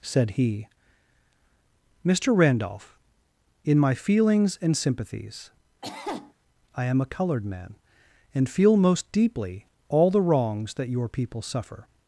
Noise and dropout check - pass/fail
fail